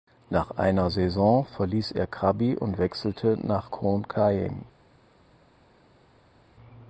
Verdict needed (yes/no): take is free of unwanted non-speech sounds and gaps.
yes